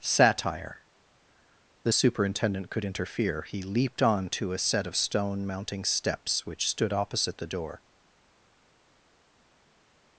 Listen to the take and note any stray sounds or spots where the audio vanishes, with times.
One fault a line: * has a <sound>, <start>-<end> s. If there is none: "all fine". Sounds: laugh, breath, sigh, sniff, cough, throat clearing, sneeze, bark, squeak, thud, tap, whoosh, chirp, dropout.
all fine